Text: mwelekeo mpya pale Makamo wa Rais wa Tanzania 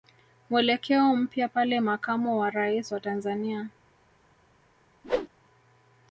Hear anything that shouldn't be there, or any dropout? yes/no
yes